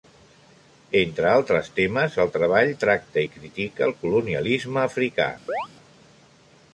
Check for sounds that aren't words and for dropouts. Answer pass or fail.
fail